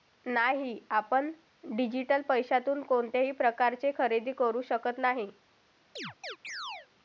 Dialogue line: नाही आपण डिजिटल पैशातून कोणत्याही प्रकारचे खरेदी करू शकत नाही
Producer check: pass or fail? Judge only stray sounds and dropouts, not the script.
fail